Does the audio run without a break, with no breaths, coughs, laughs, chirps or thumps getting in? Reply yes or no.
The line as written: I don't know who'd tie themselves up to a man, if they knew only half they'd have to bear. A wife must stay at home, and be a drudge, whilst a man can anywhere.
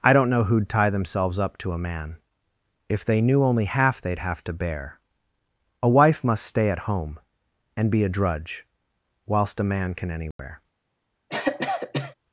no